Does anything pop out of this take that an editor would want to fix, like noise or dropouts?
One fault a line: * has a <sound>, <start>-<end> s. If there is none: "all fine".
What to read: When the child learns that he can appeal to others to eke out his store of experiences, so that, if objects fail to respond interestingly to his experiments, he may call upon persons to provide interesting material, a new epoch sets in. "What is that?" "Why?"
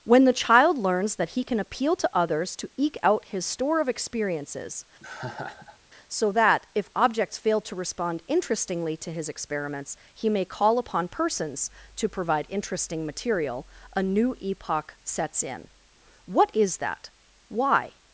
* has a laugh, 5.0-5.8 s